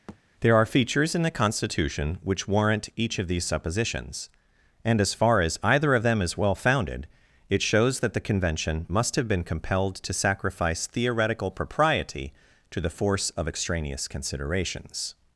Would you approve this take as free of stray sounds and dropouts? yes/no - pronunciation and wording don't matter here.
no